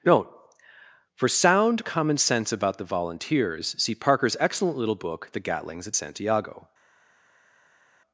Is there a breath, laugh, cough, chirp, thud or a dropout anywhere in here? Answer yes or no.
no